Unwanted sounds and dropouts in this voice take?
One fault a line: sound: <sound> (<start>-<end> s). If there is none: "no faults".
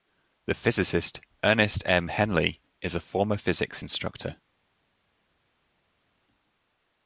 no faults